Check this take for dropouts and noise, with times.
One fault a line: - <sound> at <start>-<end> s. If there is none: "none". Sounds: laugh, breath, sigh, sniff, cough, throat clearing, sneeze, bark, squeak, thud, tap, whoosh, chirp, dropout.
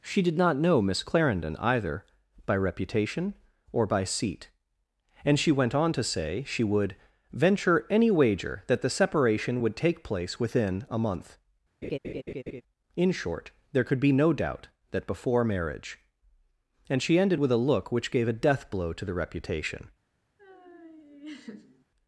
- laugh at 11.8-12.6 s
- laugh at 20.4-21.9 s